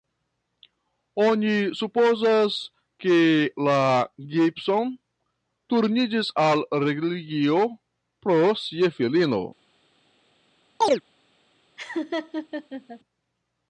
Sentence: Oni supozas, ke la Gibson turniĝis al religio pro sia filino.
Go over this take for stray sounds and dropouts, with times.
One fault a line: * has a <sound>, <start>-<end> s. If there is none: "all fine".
* has a chirp, 10.8-11.0 s
* has a laugh, 11.8-13.0 s